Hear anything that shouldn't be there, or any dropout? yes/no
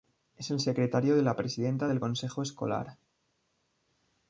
no